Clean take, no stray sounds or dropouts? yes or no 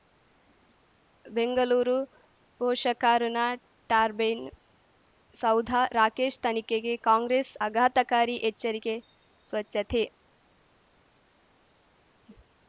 yes